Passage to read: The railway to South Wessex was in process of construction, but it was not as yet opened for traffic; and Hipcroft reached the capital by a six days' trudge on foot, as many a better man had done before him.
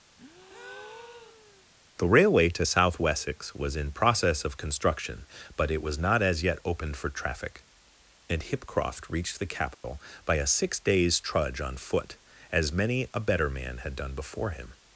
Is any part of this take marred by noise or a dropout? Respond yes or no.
yes